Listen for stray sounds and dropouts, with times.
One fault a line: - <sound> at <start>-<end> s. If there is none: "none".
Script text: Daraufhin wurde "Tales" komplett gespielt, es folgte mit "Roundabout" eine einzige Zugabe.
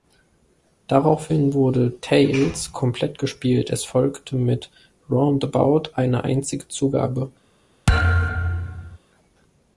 - thud at 7.9-9.0 s